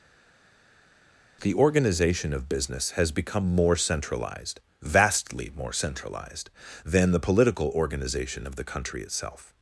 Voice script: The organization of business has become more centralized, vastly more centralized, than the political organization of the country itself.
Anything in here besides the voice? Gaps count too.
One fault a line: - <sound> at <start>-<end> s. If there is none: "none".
none